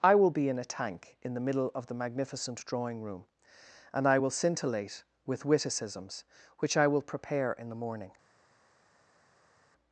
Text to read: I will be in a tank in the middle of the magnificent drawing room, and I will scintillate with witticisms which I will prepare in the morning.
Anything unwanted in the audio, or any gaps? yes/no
no